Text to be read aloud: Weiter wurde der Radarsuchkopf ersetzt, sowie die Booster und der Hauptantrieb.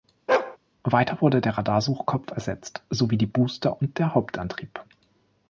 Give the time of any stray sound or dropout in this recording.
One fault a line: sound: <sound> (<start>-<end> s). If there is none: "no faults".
sound: bark (0.3-0.6 s)